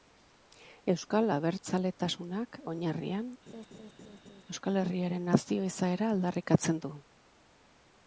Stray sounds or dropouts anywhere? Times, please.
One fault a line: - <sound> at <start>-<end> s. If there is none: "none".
- laugh at 3.5-4.4 s